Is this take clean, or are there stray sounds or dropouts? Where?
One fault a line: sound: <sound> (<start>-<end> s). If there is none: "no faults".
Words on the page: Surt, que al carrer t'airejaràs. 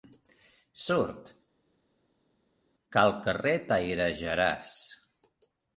no faults